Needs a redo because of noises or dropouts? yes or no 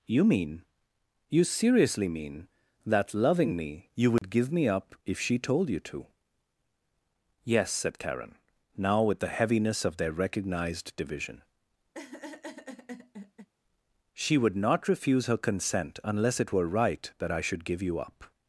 yes